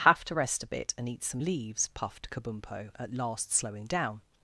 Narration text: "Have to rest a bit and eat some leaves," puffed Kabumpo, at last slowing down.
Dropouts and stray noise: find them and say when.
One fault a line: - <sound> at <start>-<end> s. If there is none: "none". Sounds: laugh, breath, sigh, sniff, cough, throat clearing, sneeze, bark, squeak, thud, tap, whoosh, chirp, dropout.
none